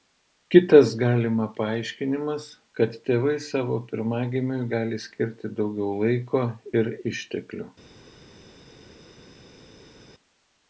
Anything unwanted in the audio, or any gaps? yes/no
no